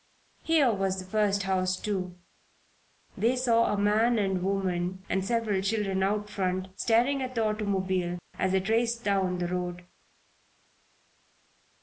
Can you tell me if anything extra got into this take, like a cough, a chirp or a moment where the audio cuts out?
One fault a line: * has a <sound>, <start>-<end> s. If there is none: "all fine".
all fine